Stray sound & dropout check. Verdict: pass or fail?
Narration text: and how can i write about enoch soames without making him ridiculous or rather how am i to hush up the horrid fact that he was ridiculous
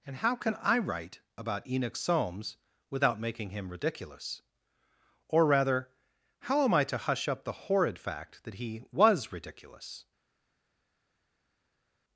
pass